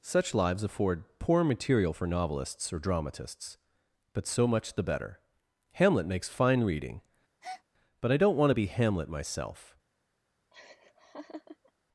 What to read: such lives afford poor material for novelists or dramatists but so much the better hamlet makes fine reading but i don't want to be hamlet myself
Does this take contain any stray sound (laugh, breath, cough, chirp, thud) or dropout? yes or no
yes